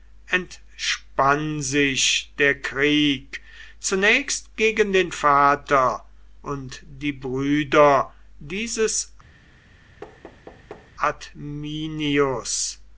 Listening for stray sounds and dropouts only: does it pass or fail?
fail